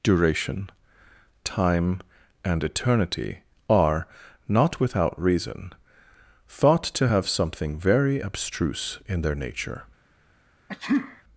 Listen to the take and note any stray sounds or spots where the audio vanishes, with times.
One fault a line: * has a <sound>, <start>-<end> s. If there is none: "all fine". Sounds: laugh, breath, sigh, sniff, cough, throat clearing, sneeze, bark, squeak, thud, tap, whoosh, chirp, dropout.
* has a sneeze, 10.7-11.2 s